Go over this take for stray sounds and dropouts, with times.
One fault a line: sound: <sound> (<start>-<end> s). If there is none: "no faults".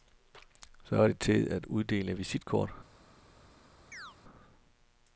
sound: chirp (3.9-4.2 s)